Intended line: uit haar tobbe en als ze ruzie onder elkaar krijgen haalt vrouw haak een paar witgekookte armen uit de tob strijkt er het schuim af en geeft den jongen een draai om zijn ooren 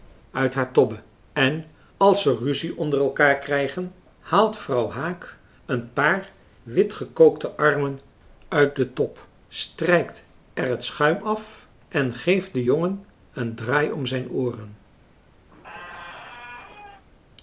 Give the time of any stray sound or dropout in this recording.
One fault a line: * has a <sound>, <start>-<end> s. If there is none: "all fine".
* has a squeak, 15.5-17.0 s